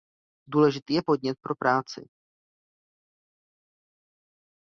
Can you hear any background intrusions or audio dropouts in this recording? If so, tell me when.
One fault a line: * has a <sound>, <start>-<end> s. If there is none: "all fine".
all fine